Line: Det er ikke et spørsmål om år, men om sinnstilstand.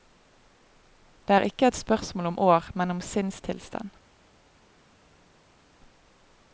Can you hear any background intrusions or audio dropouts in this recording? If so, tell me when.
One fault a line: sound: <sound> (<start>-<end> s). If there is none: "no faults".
no faults